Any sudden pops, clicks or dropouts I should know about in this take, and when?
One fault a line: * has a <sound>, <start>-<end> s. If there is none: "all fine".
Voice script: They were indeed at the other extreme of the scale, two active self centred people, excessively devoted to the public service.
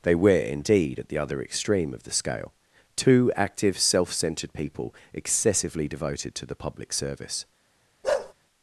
* has a bark, 8.0-8.3 s